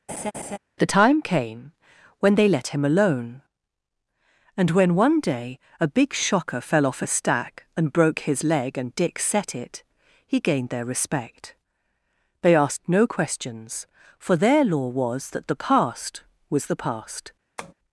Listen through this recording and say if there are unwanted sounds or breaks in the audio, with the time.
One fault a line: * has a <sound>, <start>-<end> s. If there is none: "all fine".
* has a laugh, 0.1-0.6 s
* has a tap, 17.6-17.7 s